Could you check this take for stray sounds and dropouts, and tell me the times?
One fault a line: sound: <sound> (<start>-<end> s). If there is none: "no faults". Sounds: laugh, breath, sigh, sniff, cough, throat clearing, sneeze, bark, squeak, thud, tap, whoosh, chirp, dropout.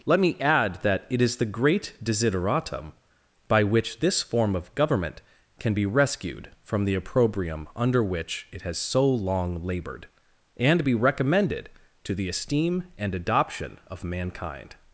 no faults